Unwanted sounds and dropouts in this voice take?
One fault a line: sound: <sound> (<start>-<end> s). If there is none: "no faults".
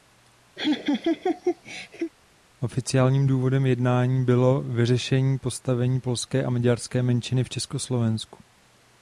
sound: laugh (0.6-2.1 s)